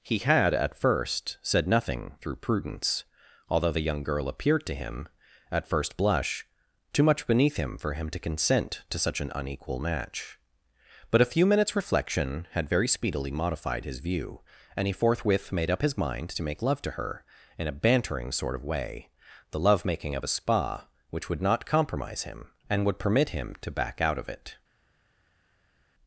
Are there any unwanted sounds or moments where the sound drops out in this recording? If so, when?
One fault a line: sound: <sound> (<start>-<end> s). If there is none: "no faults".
no faults